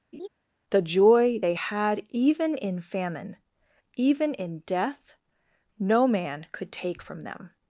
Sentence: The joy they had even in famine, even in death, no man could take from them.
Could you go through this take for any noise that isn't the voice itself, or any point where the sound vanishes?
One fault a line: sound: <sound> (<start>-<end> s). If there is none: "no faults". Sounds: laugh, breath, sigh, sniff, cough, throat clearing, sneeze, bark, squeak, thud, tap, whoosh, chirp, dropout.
sound: laugh (0.1-0.3 s)